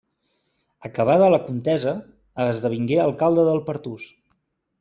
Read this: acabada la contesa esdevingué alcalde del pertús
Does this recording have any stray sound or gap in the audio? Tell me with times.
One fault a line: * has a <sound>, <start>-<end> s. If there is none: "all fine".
all fine